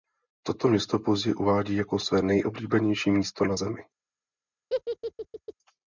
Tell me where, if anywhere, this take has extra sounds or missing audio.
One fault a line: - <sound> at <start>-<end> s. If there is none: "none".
- laugh at 4.7-5.5 s